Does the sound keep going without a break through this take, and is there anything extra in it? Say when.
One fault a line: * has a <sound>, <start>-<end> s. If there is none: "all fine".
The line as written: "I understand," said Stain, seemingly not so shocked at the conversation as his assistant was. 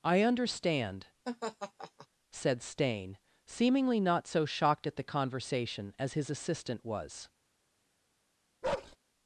* has a laugh, 1.3-2.1 s
* has a bark, 8.6-9.0 s